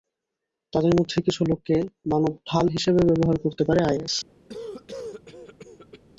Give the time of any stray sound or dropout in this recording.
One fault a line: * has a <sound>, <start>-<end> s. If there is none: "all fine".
* has a cough, 4.5-6.0 s